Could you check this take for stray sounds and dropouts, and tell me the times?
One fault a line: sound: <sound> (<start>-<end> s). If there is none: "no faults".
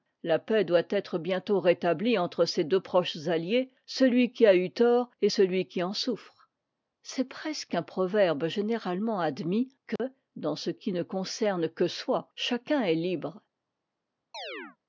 sound: dropout (10.0-10.0 s)
sound: chirp (14.3-14.8 s)